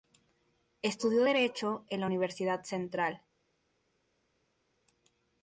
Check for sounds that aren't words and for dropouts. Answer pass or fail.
pass